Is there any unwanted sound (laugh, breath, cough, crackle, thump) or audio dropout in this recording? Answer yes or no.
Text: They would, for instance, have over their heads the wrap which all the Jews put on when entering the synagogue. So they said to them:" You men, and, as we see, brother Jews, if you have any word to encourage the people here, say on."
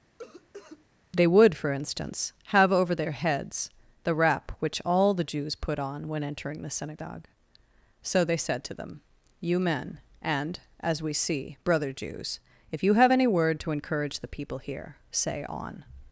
yes